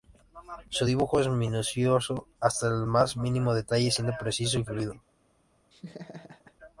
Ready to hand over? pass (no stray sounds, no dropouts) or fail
fail